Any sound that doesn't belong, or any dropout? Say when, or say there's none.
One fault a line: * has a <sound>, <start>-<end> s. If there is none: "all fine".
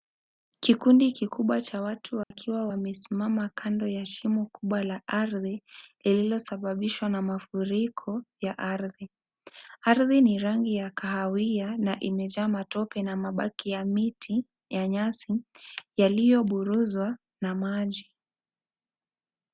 * has a dropout, 2.2-2.3 s